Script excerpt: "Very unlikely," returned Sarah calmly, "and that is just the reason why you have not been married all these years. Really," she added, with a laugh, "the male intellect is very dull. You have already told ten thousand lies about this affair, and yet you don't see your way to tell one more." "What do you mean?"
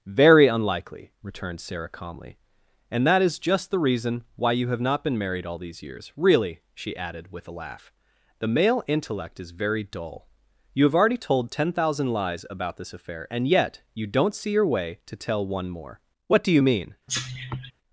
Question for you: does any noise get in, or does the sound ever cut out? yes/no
yes